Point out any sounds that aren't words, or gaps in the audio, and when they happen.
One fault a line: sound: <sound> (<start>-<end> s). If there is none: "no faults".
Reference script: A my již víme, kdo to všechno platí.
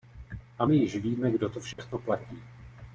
sound: dropout (1.7-1.8 s)